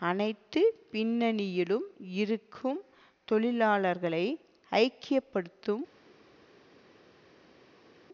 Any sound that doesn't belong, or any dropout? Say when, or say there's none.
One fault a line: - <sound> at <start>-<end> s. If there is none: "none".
none